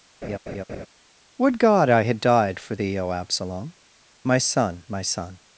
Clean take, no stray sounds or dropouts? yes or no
no